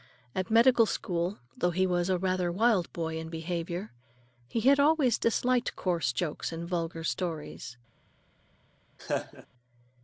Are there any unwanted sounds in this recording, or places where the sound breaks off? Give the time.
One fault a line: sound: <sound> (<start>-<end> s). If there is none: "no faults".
sound: laugh (9.0-9.5 s)